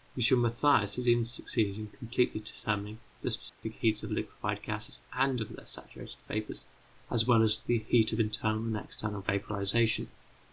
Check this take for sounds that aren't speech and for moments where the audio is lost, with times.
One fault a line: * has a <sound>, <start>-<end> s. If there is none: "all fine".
* has a dropout, 3.5-3.6 s